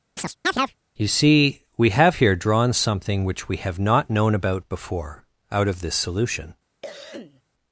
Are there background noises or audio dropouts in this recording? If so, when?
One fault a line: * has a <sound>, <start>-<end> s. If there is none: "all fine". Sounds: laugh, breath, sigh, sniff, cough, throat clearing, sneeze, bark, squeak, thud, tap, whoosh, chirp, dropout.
* has a chirp, 0.2-0.8 s
* has a cough, 6.8-7.4 s